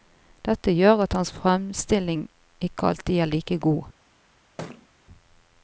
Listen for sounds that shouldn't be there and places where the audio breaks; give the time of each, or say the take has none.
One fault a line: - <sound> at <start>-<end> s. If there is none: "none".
- thud at 4.6-4.9 s